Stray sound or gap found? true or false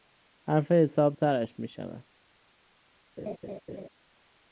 true